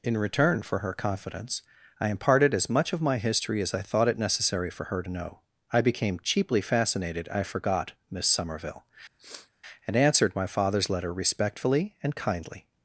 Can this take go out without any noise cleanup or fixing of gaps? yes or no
no